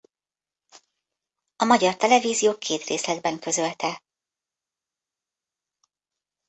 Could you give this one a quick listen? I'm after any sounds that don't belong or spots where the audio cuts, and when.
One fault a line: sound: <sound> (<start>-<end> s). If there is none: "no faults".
no faults